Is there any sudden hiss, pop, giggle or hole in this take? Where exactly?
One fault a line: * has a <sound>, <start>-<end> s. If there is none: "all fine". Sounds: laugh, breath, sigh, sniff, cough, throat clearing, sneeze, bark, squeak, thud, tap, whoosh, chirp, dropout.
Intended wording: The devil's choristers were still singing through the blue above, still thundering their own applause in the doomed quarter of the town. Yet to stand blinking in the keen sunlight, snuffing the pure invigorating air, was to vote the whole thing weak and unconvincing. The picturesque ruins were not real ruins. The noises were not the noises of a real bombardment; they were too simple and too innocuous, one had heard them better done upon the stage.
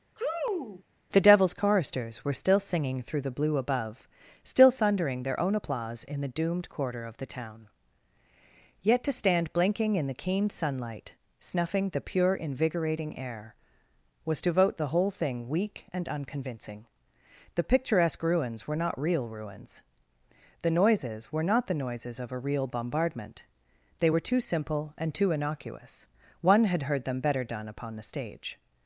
* has a sneeze, 0.2-0.8 s